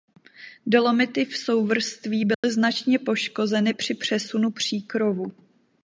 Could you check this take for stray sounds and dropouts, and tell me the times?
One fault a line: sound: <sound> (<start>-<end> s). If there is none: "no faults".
sound: dropout (2.3-2.4 s)